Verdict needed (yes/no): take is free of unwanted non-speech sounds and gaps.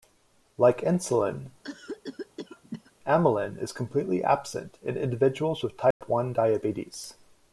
no